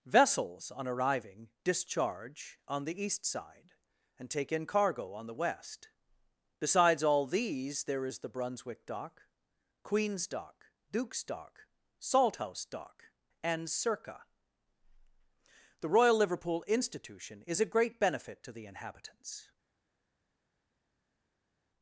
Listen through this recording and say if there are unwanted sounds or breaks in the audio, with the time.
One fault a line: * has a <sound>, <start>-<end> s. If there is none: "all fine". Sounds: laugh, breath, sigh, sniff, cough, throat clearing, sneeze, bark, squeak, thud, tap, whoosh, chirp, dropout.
all fine